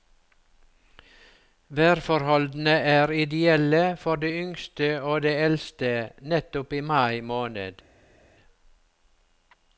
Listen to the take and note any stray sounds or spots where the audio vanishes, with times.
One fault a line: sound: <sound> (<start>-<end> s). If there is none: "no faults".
no faults